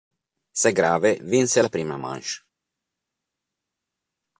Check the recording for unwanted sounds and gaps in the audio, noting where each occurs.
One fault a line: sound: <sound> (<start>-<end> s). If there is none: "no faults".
no faults